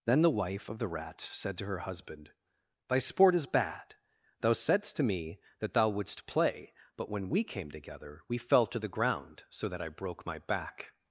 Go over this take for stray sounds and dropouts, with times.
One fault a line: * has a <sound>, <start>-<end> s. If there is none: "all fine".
all fine